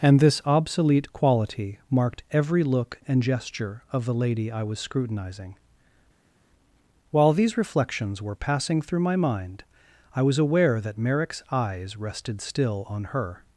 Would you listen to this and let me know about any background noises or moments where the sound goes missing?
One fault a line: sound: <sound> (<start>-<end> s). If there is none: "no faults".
no faults